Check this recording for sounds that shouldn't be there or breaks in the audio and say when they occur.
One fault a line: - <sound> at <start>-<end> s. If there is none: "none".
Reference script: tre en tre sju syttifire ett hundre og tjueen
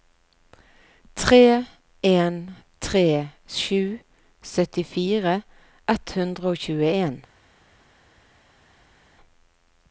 none